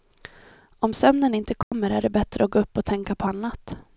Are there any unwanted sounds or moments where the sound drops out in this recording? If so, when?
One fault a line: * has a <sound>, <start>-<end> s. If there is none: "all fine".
* has a dropout, 1.6-1.7 s